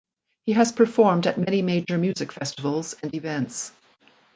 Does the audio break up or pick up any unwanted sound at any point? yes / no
no